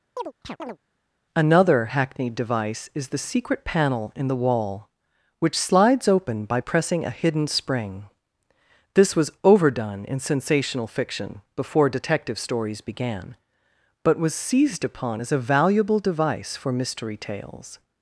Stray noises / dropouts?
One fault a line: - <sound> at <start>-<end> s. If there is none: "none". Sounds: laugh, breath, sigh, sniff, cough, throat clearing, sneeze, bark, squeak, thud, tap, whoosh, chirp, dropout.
- chirp at 0.2-0.8 s